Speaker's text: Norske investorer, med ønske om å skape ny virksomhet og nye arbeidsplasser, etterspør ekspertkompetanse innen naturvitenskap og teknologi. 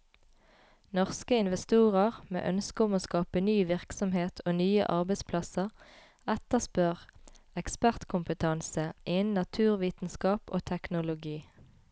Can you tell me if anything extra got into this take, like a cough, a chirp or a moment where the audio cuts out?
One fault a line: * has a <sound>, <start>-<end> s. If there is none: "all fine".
all fine